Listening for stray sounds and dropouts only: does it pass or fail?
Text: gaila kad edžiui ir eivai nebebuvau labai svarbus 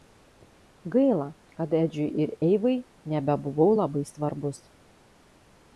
pass